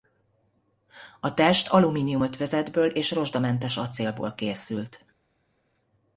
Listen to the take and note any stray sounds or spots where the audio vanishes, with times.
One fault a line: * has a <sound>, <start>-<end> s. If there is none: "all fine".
all fine